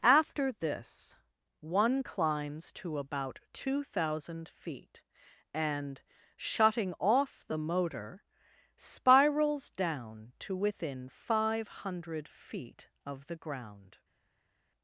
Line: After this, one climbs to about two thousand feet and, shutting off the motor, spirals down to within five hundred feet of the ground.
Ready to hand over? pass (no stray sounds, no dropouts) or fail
pass